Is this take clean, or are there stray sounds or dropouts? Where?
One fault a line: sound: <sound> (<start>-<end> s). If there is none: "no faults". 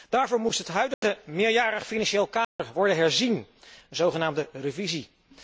sound: dropout (0.9-1.0 s)
sound: dropout (2.4-2.6 s)